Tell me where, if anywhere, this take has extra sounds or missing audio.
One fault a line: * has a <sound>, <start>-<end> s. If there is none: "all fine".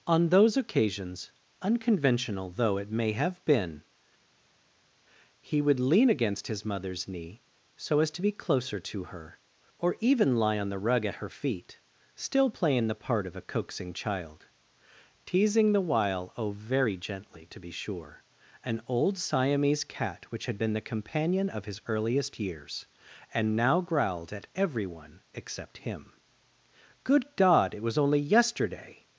all fine